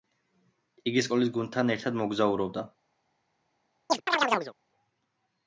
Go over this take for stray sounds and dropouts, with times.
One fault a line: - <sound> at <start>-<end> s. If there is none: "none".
- chirp at 3.9-4.5 s